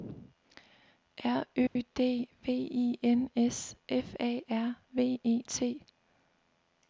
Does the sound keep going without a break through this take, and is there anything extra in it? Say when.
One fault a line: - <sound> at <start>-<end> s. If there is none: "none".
- dropout at 1.7-1.8 s